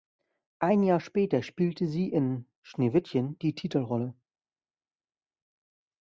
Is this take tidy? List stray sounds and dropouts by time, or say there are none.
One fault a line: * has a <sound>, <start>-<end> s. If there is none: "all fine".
all fine